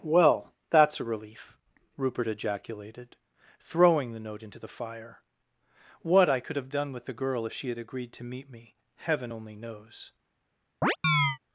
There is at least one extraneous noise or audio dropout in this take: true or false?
true